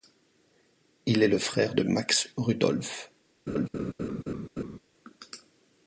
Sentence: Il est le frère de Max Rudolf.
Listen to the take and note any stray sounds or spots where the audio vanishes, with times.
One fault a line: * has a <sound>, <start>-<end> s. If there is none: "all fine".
* has a laugh, 3.5-4.8 s